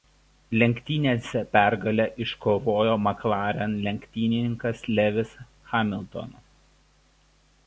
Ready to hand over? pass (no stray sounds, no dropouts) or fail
pass